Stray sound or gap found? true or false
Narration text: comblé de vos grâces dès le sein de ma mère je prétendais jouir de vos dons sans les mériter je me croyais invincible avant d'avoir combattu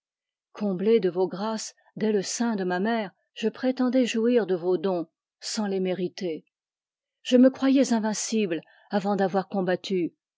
false